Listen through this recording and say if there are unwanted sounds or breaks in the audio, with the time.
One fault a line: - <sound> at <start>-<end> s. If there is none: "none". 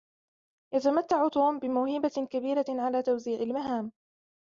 none